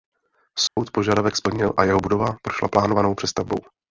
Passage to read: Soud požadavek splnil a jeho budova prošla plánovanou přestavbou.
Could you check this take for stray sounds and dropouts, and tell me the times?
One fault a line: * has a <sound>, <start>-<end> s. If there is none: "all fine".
* has a dropout, 0.7-0.8 s